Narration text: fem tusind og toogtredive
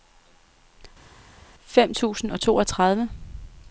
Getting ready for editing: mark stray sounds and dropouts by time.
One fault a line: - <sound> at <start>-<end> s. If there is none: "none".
none